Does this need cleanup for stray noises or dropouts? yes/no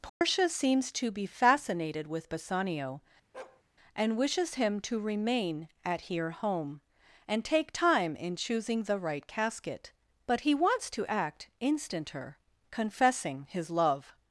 yes